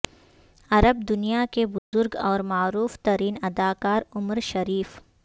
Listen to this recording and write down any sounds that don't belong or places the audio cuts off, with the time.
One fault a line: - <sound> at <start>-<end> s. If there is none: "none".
- dropout at 1.8-1.9 s